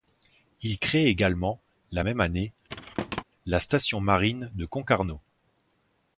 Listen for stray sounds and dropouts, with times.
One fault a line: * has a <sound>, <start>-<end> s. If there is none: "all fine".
* has a thud, 2.7-3.2 s